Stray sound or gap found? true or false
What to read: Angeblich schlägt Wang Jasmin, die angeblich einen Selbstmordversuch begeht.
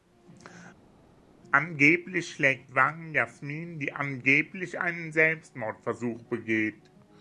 false